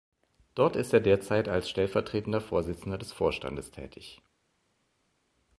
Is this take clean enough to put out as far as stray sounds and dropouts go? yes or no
yes